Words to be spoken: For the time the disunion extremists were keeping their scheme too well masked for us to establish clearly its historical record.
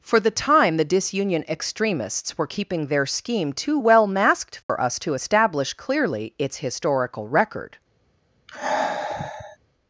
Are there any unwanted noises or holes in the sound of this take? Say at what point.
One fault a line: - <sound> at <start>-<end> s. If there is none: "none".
- dropout at 4.6-4.7 s
- sigh at 8.5-9.6 s